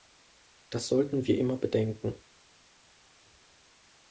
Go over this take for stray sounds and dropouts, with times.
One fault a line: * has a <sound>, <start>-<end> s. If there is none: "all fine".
all fine